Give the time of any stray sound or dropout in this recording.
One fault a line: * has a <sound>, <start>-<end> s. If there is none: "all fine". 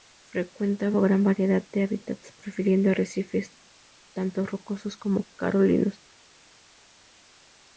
all fine